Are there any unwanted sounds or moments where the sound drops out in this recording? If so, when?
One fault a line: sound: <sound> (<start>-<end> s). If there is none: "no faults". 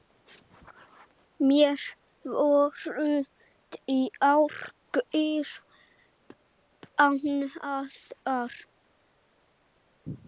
no faults